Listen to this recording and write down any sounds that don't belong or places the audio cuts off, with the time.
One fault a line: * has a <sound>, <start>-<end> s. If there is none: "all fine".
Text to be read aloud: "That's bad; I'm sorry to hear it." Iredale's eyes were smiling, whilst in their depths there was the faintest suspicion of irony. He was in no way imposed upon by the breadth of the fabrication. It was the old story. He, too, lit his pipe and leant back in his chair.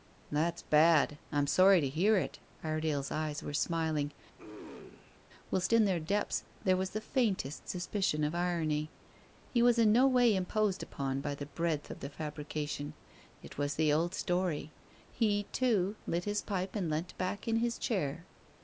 * has a throat clearing, 4.4-5.2 s